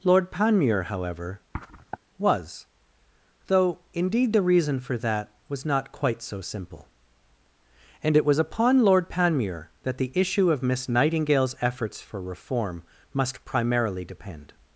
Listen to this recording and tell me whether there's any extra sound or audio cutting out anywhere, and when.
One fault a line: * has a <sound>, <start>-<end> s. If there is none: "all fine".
* has a sniff, 1.5-2.0 s